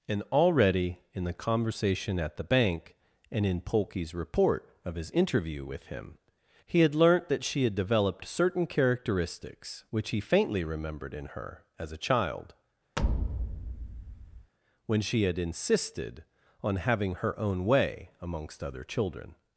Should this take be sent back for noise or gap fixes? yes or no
yes